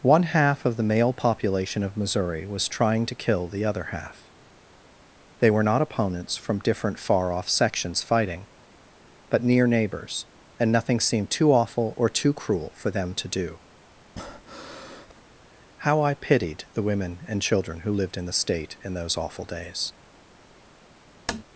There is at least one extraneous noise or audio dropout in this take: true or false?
true